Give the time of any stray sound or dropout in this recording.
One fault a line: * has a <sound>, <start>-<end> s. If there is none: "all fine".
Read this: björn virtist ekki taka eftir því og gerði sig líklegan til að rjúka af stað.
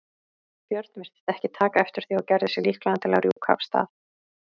* has a dropout, 3.3-3.4 s